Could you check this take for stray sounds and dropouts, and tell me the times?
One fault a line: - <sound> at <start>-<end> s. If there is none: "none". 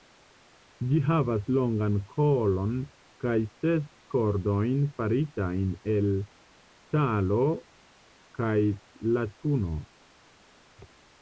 none